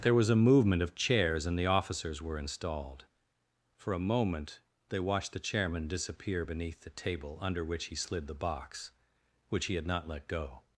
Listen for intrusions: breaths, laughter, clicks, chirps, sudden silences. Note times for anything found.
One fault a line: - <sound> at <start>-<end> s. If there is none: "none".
none